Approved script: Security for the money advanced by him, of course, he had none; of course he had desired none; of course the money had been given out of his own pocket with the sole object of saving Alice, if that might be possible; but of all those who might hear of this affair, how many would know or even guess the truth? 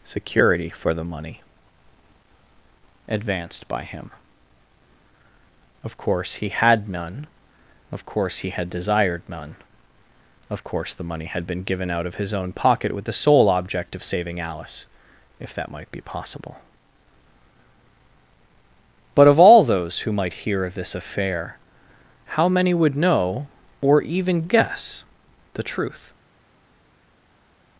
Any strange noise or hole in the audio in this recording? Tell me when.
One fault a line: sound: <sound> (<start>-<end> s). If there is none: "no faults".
no faults